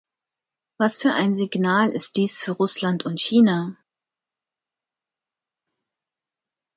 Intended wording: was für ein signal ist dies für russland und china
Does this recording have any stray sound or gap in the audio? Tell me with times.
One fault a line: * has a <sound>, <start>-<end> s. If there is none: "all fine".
all fine